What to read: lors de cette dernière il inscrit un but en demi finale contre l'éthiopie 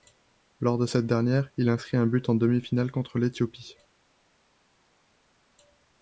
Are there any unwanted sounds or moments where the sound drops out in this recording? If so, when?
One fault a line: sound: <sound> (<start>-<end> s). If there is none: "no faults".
no faults